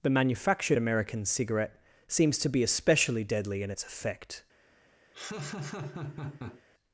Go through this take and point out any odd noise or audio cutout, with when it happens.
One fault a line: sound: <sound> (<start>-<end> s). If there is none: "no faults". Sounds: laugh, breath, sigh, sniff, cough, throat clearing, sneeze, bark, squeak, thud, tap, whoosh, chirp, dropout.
sound: laugh (5.1-6.6 s)